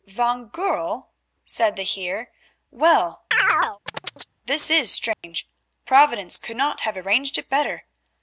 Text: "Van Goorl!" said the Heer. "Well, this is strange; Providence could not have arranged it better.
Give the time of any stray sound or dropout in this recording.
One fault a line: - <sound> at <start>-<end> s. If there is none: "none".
- chirp at 3.3-4.3 s
- dropout at 5.1-5.2 s